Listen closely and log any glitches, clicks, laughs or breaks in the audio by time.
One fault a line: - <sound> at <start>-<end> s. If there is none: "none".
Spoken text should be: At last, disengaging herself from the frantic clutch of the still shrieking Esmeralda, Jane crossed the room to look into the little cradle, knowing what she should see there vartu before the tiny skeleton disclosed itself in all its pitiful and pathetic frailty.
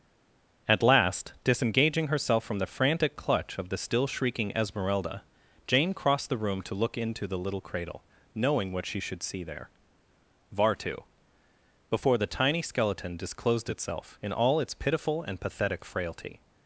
none